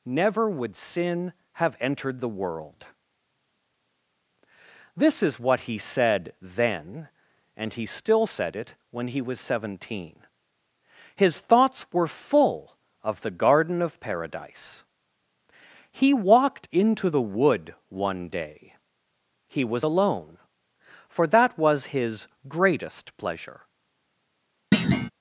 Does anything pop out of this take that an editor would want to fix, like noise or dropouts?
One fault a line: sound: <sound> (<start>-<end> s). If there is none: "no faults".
sound: thud (24.7-25.1 s)